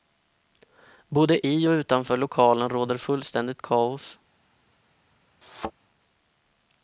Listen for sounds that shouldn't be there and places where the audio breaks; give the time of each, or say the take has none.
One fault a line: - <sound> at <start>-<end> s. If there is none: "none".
- thud at 5.4-5.7 s